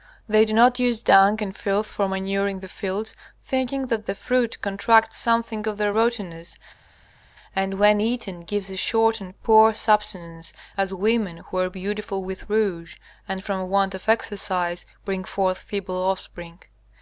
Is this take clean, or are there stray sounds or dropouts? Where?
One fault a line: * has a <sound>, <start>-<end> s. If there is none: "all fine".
all fine